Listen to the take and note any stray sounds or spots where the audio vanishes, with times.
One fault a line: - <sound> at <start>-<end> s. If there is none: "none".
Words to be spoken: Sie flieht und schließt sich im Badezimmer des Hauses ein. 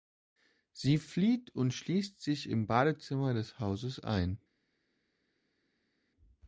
none